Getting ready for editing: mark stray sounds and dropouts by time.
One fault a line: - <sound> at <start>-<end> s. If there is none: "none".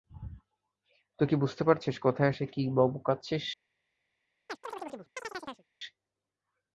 - chirp at 4.5-5.7 s